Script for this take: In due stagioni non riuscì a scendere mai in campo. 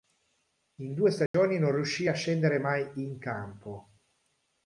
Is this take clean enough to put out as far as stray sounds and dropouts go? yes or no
no